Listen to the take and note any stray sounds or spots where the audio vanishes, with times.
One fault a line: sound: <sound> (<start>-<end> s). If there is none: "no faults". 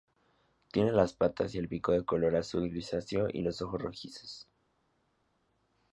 no faults